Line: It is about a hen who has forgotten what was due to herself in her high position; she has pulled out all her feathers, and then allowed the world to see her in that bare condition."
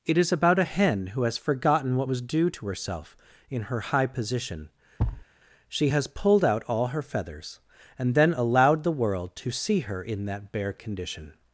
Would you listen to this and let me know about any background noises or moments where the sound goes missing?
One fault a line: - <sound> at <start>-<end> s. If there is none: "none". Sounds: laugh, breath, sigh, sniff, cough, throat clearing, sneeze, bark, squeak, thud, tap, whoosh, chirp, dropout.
- thud at 5.0-5.3 s